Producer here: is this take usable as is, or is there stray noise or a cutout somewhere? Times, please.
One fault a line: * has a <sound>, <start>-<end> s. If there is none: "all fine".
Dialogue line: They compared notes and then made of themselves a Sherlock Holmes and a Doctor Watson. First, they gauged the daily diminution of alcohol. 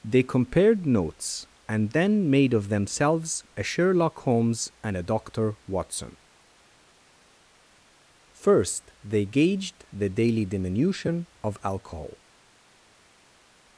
all fine